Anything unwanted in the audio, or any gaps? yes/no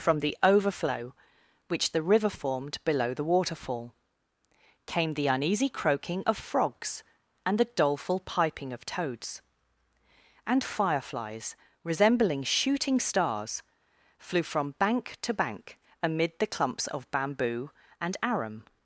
no